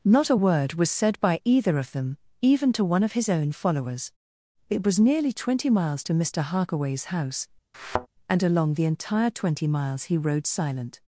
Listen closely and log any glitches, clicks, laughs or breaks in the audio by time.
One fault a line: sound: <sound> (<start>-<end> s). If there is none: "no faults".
sound: thud (7.7-8.1 s)